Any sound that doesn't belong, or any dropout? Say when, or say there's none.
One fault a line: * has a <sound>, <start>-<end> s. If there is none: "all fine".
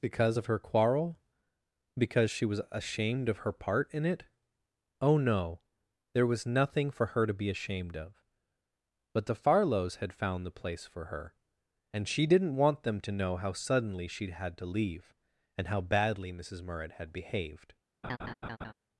* has a laugh, 18.0-18.7 s